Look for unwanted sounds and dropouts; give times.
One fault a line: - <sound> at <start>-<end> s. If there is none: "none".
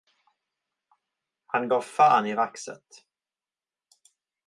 none